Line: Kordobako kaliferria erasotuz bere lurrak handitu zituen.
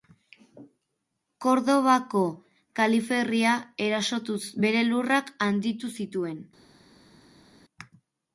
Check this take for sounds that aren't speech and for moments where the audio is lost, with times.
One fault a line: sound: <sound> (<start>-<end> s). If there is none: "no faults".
no faults